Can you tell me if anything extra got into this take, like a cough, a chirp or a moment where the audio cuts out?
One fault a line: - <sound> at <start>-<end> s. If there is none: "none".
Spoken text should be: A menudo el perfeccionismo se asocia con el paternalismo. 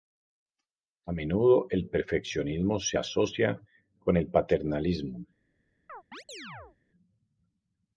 - chirp at 5.9-6.8 s